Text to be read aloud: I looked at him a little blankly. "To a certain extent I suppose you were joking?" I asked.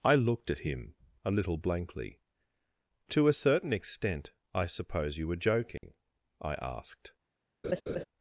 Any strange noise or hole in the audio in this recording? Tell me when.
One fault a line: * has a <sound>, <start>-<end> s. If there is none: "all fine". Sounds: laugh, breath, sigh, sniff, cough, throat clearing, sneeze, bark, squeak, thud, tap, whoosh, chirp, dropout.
* has a dropout, 5.8-5.8 s
* has a laugh, 7.6-8.0 s